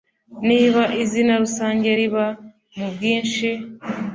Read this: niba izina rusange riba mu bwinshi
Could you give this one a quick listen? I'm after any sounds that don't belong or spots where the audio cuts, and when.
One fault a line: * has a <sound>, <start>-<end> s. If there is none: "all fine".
all fine